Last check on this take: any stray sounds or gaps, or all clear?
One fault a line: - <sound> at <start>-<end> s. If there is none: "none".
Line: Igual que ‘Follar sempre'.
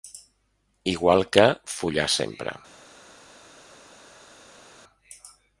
none